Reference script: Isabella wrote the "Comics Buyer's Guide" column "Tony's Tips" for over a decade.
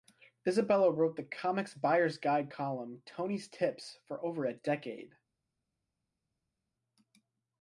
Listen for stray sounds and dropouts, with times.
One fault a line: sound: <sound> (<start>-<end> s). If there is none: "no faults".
no faults